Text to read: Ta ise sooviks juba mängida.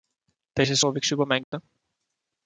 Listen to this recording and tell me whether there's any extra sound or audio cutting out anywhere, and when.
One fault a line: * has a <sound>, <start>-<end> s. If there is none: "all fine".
* has a dropout, 1.4-1.5 s